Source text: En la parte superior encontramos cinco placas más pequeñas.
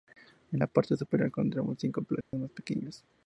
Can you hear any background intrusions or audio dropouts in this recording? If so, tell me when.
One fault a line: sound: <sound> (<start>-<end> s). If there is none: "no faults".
sound: dropout (2.2-2.3 s)